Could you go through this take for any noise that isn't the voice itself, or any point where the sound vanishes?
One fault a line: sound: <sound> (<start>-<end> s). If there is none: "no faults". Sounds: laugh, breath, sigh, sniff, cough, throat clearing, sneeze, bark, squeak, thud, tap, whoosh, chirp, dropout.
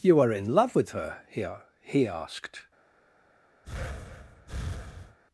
sound: breath (3.6-5.2 s)